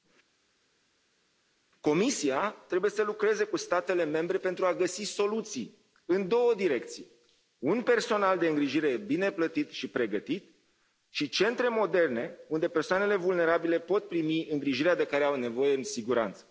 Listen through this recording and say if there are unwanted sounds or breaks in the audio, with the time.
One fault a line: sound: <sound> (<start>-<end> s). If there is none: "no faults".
no faults